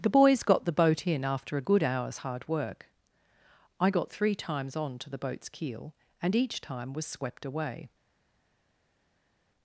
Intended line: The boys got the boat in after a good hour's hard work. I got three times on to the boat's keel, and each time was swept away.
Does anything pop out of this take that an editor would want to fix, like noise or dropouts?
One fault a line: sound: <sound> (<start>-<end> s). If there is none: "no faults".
no faults